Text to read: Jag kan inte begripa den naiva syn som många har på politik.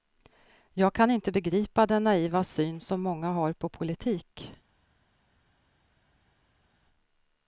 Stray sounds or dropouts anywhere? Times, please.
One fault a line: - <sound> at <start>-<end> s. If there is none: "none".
none